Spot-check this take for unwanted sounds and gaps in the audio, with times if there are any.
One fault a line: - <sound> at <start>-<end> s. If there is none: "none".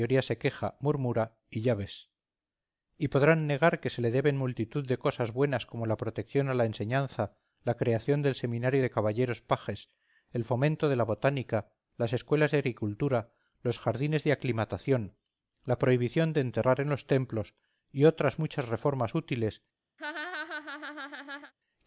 - laugh at 20.0-21.5 s